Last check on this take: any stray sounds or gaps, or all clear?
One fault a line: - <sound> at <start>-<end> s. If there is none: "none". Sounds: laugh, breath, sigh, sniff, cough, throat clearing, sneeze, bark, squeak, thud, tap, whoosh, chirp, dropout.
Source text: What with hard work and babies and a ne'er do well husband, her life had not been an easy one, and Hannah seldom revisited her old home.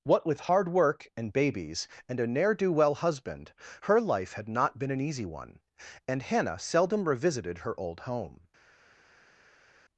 none